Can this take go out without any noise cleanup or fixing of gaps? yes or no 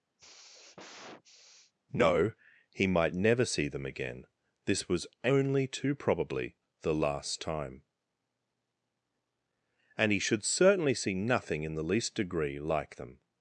no